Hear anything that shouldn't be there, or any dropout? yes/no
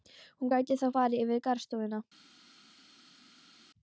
no